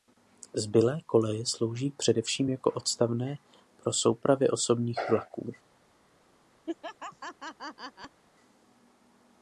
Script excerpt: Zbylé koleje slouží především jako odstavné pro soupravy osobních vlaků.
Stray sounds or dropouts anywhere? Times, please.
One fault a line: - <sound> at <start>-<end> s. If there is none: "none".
- laugh at 6.7-8.2 s